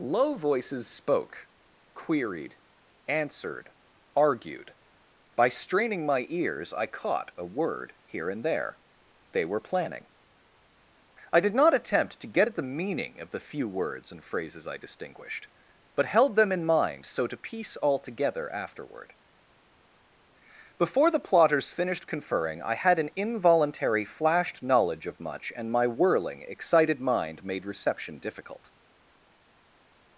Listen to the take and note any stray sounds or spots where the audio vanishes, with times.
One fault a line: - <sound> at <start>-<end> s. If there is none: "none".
none